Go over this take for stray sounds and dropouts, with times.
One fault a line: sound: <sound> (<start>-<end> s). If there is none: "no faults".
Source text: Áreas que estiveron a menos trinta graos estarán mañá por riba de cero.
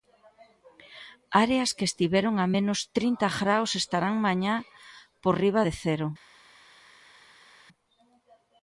no faults